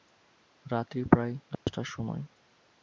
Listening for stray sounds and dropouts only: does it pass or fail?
fail